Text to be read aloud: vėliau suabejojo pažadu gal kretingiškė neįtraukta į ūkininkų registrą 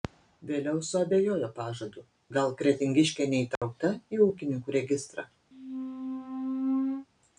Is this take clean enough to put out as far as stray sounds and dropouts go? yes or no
no